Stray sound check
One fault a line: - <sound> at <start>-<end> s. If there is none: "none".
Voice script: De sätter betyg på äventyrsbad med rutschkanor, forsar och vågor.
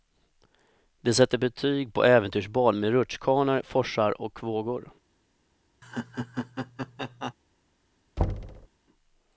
- laugh at 5.8-7.3 s
- thud at 8.2-8.7 s